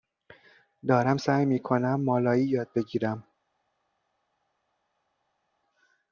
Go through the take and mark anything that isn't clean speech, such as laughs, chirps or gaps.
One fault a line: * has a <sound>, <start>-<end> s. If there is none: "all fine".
all fine